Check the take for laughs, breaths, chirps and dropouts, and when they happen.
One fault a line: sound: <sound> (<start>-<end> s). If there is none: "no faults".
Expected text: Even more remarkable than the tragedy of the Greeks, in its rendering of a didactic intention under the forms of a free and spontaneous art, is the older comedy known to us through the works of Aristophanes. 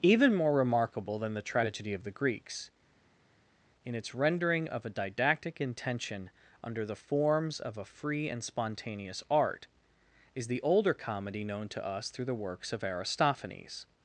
no faults